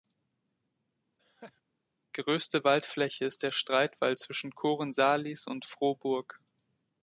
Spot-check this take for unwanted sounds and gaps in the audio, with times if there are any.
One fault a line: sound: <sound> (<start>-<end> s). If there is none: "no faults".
sound: laugh (1.2-1.6 s)